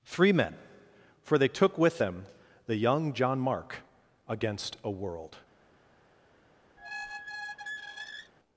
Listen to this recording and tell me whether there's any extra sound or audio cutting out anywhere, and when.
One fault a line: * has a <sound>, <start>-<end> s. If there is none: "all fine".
* has a squeak, 6.8-8.3 s